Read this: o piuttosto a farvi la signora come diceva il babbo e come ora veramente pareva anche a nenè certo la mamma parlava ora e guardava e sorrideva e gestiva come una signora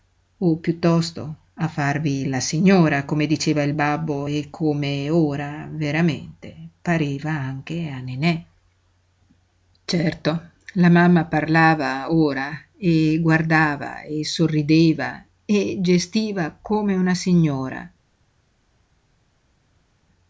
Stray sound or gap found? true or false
false